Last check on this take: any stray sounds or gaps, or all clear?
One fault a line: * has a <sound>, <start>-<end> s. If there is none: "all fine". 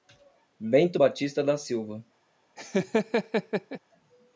* has a laugh, 2.6-3.8 s